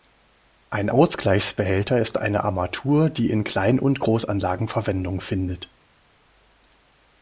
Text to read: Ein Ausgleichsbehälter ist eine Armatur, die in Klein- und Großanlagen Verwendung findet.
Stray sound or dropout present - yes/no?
no